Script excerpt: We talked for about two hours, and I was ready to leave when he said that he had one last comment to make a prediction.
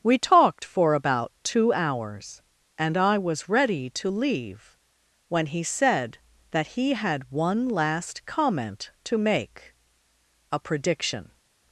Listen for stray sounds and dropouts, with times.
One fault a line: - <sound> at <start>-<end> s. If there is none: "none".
none